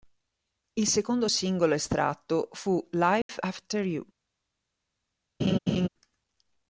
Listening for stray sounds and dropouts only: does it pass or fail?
fail